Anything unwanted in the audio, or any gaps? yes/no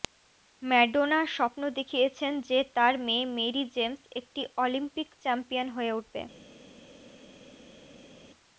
no